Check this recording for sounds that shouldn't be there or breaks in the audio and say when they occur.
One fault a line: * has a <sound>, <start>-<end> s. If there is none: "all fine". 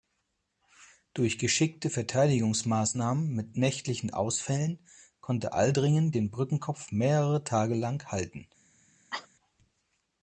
* has a cough, 9.1-9.3 s